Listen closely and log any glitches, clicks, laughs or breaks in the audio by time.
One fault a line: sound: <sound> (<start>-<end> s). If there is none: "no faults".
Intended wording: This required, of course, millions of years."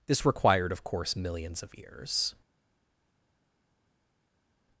no faults